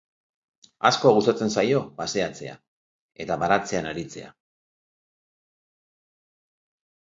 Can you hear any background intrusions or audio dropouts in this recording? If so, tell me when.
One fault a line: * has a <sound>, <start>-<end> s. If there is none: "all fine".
all fine